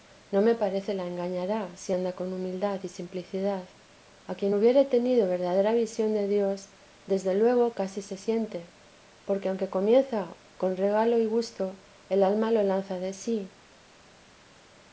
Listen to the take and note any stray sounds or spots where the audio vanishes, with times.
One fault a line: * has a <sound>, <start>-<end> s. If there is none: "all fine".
all fine